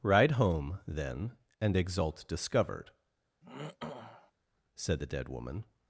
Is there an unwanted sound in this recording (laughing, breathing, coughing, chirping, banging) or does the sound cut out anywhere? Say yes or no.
yes